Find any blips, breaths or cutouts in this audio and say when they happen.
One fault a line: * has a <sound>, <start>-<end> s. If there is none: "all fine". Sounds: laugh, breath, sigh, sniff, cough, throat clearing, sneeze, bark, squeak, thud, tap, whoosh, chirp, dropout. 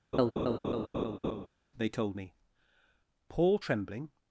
* has a laugh, 0.1-1.5 s